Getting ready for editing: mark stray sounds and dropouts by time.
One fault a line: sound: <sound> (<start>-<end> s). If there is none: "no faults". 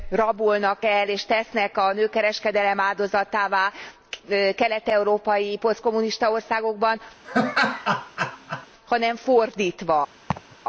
sound: laugh (7.2-8.7 s)
sound: laugh (10.3-10.6 s)